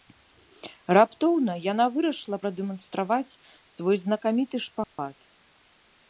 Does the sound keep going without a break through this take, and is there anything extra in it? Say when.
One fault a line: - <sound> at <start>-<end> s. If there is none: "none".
- dropout at 4.8-5.0 s